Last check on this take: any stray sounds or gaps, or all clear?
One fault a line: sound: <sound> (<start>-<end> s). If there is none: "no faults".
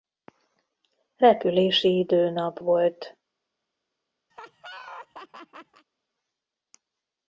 sound: laugh (4.3-5.8 s)